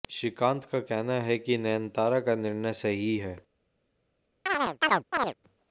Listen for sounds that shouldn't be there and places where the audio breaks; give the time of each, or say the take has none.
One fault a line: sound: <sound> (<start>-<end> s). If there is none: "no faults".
sound: chirp (4.5-5.3 s)